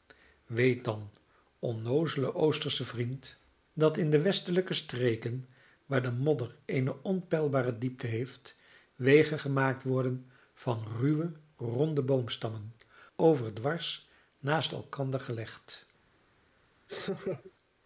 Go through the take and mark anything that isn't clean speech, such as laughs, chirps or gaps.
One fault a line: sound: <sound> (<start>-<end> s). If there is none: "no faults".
sound: laugh (16.9-17.5 s)